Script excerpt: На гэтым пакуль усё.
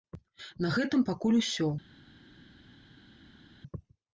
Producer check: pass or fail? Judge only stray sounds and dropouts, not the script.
pass